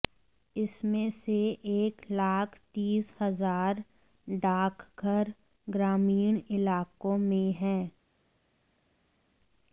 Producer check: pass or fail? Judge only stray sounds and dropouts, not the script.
pass